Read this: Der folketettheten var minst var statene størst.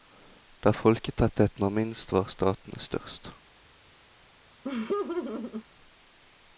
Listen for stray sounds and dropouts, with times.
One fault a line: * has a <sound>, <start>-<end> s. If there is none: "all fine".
* has a laugh, 4.6-5.7 s